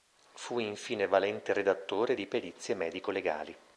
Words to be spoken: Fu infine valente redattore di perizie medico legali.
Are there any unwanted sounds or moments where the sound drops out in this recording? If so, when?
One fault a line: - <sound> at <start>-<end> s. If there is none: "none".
none